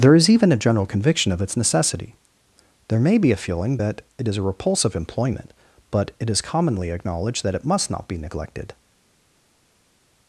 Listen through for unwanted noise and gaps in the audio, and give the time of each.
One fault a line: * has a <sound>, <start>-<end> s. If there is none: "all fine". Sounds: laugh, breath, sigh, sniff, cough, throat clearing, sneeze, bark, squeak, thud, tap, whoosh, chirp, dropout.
all fine